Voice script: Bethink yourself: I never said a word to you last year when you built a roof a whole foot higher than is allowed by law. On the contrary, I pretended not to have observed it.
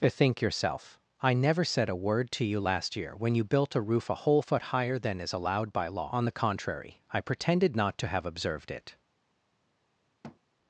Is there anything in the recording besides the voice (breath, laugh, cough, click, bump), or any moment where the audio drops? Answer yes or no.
yes